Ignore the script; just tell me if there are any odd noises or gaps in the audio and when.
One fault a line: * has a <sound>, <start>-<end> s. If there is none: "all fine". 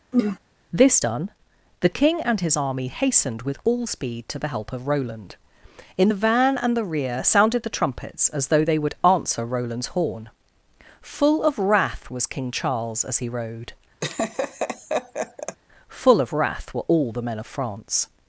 * has a throat clearing, 0.1-0.4 s
* has a laugh, 14.0-15.6 s